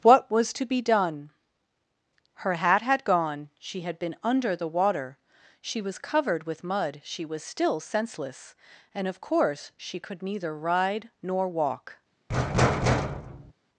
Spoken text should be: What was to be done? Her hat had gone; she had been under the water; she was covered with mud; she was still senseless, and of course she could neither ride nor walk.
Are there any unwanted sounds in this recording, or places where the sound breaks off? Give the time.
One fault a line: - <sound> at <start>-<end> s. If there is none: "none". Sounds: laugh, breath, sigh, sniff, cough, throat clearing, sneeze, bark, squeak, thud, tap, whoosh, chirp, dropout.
- thud at 12.3-13.5 s